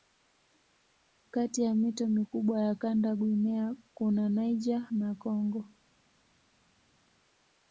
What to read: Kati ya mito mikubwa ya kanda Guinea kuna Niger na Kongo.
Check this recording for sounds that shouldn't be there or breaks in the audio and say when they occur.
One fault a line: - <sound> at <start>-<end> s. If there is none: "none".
none